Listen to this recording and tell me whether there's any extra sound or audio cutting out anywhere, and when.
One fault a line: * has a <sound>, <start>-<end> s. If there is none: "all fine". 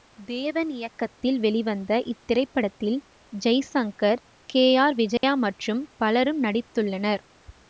* has a dropout, 5.2-5.2 s